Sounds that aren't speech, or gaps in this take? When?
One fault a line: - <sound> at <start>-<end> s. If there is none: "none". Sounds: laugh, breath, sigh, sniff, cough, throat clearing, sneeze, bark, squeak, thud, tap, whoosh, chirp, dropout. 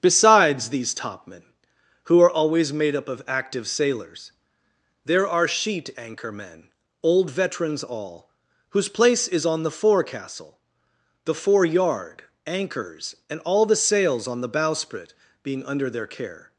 none